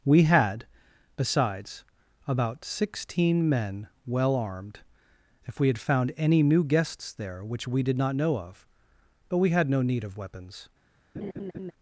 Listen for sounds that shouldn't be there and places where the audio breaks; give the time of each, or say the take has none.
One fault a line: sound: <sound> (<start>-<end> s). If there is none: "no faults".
sound: laugh (11.1-11.7 s)